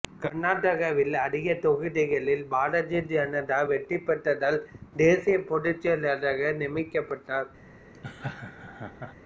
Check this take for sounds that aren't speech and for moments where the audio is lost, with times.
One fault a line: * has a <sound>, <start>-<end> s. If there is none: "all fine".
* has a laugh, 7.9-9.1 s